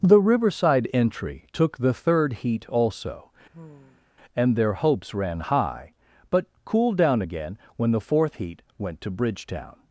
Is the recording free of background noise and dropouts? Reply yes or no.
no